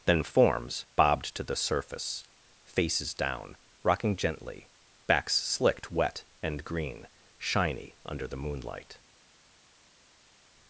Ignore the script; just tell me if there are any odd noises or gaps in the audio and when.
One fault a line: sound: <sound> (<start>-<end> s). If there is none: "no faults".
no faults